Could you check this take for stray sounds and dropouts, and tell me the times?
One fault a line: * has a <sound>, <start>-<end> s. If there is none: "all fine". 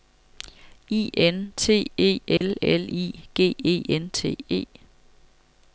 * has a dropout, 2.4-2.4 s